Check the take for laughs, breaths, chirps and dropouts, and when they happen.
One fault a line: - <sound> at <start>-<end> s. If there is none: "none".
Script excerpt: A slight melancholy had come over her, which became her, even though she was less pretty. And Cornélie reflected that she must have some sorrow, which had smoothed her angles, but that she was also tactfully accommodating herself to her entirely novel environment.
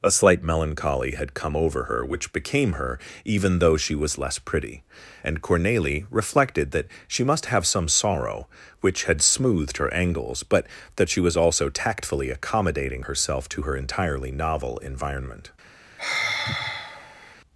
- sigh at 16.0-17.4 s